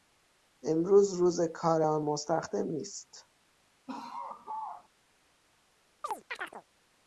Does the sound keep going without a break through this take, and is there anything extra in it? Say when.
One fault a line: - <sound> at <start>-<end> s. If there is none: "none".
- laugh at 3.9-4.9 s
- chirp at 6.0-6.6 s